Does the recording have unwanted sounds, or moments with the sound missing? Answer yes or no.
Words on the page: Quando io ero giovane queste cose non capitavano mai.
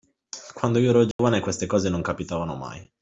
yes